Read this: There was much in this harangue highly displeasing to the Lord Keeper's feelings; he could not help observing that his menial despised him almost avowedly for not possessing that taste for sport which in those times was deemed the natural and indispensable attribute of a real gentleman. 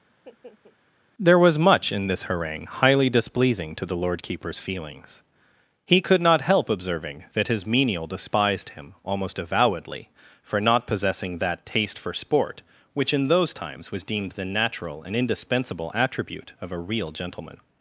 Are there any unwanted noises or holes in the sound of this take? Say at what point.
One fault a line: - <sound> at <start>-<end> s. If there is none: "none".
- laugh at 0.1-0.8 s